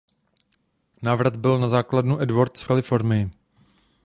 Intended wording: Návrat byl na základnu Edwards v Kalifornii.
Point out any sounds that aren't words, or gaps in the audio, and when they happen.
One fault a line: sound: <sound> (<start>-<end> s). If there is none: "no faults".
no faults